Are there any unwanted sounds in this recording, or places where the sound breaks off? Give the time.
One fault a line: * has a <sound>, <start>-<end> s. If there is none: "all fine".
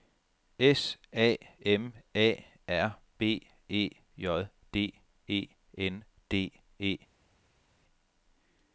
all fine